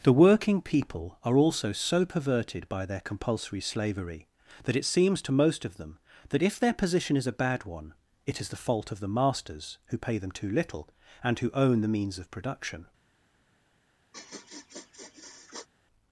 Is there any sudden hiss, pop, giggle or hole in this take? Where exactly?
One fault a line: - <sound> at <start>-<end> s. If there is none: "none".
- sniff at 14.1-15.7 s